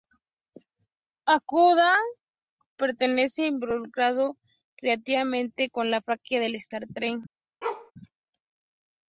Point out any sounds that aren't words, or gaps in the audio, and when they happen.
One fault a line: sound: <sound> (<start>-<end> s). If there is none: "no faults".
sound: bark (7.6-7.9 s)